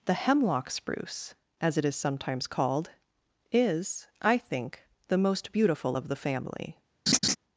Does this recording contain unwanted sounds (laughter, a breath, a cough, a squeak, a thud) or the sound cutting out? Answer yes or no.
yes